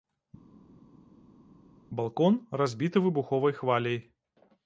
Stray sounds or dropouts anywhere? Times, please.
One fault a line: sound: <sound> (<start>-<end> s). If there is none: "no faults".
no faults